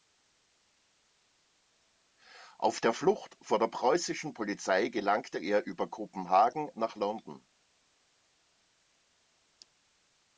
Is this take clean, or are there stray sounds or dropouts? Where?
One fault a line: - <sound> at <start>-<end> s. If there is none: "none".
none